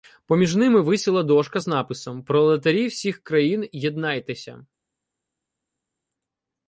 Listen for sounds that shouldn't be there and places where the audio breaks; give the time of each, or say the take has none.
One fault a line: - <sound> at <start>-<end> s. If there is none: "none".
none